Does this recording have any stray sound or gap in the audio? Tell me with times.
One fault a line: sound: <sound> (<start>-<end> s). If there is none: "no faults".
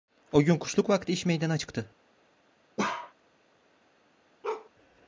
sound: bark (2.8-3.1 s)
sound: bark (4.4-4.7 s)